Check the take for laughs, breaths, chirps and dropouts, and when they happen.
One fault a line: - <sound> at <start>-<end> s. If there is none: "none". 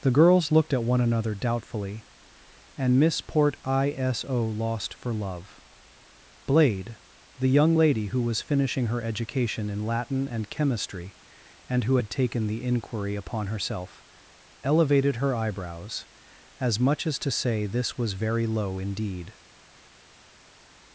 none